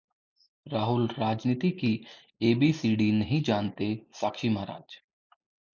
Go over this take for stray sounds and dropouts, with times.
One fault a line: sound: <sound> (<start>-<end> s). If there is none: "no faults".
no faults